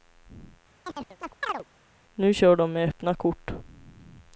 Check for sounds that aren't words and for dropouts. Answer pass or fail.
fail